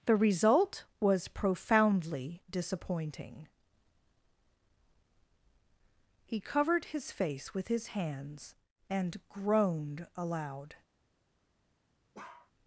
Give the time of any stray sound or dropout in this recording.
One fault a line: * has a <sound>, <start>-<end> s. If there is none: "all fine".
* has a bark, 12.1-12.5 s